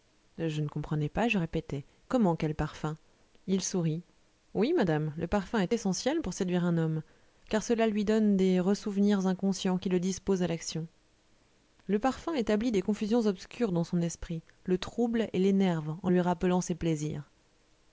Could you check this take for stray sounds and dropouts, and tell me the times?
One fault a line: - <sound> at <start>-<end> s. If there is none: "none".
none